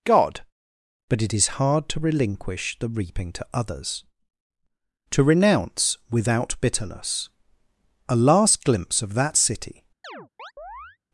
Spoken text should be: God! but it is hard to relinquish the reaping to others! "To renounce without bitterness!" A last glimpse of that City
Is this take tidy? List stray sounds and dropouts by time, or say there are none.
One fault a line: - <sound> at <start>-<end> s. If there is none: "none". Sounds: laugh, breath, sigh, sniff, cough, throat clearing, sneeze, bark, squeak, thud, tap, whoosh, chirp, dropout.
- chirp at 10.0-11.0 s